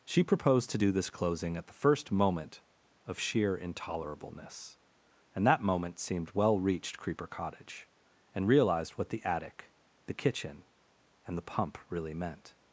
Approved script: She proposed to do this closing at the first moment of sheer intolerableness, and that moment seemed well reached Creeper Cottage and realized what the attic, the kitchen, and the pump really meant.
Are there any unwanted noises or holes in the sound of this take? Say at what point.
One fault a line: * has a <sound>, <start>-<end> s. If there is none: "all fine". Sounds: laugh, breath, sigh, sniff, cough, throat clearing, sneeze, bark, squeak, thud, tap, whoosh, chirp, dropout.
all fine